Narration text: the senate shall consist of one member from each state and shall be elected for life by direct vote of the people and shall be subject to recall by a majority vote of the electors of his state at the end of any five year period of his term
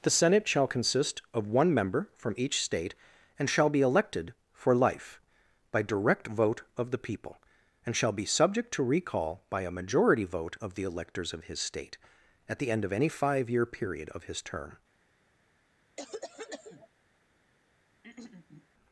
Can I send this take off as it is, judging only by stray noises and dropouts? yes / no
no